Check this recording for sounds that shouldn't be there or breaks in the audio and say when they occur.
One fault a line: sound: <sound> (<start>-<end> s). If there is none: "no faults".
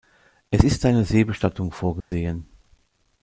sound: dropout (2.0-2.1 s)